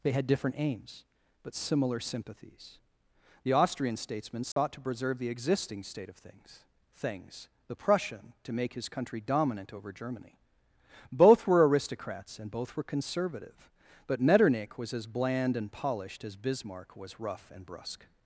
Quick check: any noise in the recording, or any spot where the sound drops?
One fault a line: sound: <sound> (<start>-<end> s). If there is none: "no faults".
sound: dropout (4.5-4.6 s)